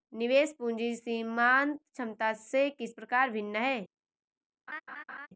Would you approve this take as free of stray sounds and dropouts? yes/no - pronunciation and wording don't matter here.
no